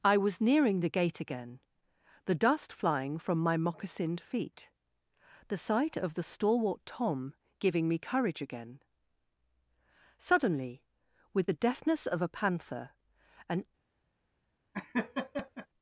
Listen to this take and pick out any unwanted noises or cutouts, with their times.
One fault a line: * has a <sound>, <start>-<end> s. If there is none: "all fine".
* has a laugh, 14.7-15.7 s